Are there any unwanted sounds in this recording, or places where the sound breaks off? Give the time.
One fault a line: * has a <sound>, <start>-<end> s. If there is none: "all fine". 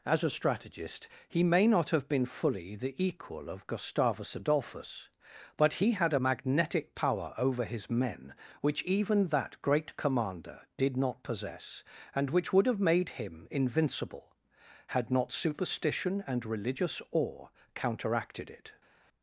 all fine